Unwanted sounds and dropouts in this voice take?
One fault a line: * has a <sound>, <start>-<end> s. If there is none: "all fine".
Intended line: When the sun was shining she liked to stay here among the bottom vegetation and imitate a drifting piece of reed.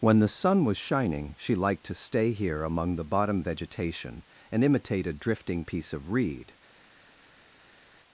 all fine